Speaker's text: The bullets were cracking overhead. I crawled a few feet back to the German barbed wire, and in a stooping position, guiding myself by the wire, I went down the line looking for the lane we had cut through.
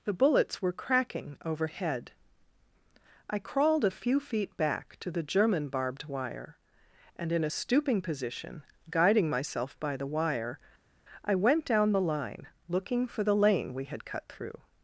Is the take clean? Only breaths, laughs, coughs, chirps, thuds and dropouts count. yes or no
yes